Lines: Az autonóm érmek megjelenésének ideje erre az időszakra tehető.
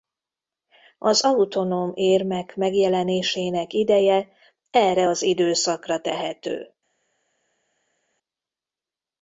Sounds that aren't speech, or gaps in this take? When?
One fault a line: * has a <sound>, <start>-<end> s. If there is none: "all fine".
all fine